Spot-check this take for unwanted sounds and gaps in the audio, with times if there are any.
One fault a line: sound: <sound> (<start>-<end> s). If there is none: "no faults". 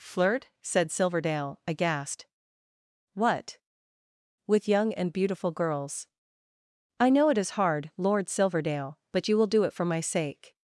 no faults